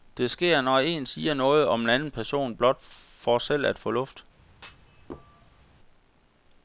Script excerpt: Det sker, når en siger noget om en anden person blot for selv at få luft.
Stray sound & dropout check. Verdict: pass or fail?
fail